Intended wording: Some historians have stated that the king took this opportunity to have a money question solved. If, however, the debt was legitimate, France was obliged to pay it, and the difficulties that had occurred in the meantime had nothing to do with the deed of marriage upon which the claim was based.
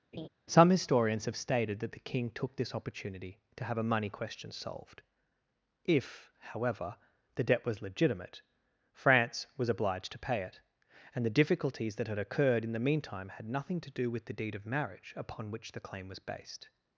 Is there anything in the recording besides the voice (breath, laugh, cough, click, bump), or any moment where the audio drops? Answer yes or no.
yes